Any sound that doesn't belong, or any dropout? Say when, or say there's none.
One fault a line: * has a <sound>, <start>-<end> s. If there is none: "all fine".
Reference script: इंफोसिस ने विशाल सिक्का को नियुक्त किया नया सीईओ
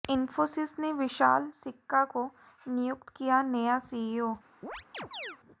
* has a chirp, 4.6-5.4 s